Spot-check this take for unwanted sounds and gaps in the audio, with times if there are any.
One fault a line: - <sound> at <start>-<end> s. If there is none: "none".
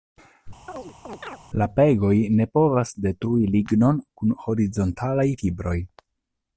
- chirp at 0.7-1.4 s